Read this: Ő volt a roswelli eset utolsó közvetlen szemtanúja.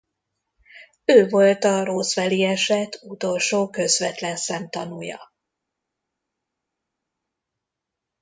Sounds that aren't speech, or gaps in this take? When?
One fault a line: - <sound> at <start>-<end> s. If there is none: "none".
none